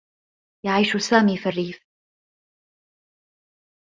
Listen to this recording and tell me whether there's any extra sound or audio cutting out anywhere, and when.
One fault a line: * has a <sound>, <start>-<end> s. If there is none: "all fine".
all fine